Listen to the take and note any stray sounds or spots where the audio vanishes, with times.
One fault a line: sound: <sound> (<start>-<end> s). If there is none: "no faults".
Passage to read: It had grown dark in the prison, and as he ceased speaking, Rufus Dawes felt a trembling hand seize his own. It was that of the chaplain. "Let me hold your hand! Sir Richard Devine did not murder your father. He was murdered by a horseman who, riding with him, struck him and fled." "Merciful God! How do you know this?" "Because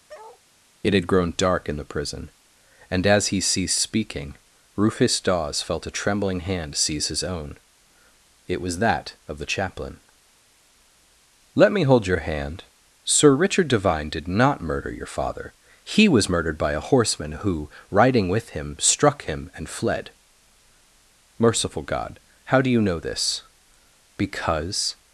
sound: bark (0.1-0.4 s)